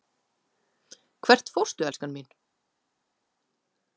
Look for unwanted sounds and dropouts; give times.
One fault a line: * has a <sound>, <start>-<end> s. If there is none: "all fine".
all fine